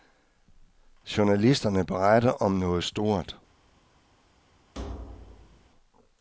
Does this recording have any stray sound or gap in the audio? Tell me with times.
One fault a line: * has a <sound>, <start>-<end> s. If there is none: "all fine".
* has a thud, 4.7-5.7 s